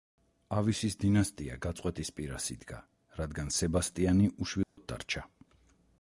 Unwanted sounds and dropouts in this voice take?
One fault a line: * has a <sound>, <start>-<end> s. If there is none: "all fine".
* has a dropout, 4.6-4.8 s